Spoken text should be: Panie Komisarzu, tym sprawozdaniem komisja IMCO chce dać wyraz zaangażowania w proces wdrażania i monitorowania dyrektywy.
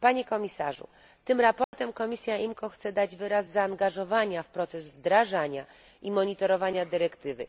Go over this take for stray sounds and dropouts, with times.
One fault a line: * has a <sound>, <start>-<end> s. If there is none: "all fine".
* has a dropout, 1.6-1.7 s